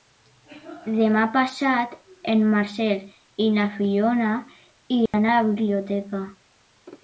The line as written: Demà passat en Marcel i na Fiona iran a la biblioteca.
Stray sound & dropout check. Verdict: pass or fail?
fail